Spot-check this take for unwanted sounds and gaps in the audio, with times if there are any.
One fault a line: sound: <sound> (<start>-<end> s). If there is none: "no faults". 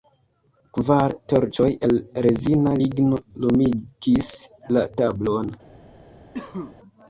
sound: cough (6.3-6.8 s)